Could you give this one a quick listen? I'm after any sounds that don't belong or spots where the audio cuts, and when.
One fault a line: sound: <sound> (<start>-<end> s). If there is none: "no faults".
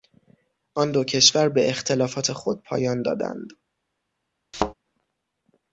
sound: thud (4.5-4.7 s)